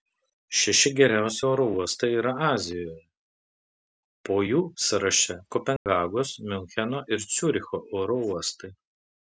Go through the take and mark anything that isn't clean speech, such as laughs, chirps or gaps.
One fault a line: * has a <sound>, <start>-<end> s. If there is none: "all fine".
* has a dropout, 5.8-5.9 s